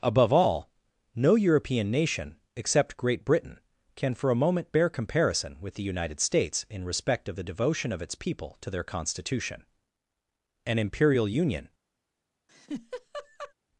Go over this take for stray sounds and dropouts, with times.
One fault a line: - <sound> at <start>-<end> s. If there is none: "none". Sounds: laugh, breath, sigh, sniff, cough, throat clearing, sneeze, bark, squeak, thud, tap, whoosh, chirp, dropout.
- laugh at 12.5-13.5 s